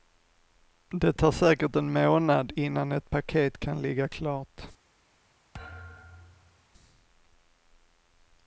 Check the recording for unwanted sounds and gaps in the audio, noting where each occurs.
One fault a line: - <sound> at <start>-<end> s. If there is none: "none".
- thud at 5.5-6.7 s